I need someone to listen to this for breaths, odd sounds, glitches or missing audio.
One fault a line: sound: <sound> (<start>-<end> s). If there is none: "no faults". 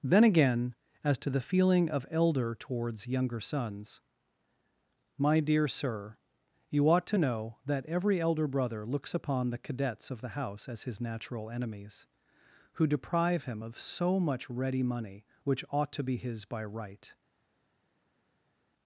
no faults